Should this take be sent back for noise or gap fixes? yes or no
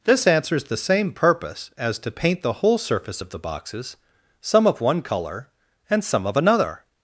no